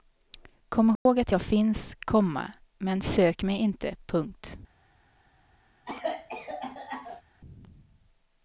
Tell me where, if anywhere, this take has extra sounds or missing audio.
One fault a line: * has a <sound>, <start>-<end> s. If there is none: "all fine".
* has a dropout, 1.0-1.1 s
* has a cough, 5.9-7.2 s